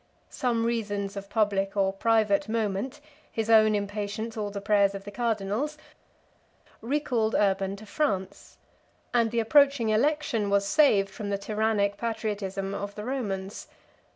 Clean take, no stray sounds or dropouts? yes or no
yes